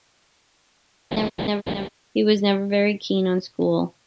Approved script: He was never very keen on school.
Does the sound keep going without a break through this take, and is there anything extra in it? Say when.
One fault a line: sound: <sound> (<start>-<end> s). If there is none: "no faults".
sound: laugh (1.1-1.9 s)